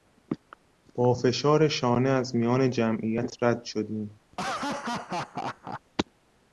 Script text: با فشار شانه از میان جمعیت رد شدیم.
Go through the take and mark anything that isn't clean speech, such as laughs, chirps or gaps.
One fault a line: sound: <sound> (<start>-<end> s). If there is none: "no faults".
sound: laugh (4.3-5.8 s)